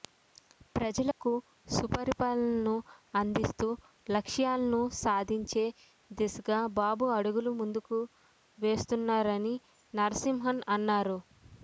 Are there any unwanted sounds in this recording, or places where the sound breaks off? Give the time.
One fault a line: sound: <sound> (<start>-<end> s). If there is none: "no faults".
sound: dropout (1.1-1.2 s)